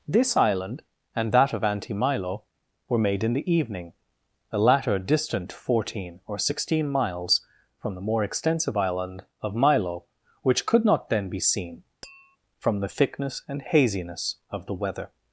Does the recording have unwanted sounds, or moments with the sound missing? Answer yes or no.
yes